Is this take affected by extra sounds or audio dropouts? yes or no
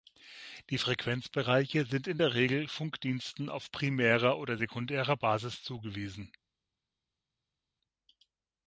no